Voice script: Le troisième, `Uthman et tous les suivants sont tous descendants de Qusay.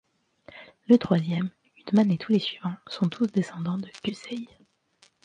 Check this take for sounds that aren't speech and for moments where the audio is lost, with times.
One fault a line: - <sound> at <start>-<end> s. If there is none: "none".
none